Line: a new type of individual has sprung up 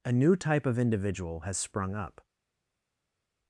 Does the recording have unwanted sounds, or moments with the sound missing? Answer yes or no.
no